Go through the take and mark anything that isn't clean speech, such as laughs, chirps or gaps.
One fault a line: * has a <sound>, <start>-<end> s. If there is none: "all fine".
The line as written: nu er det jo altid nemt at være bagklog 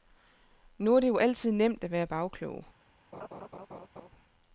* has a laugh, 3.1-4.1 s